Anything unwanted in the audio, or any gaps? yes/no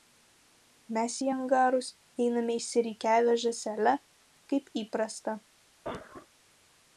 yes